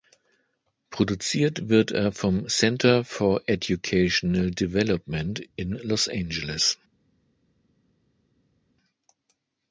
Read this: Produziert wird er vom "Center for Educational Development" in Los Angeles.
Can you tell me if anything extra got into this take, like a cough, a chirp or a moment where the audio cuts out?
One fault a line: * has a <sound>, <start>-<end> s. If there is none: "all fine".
all fine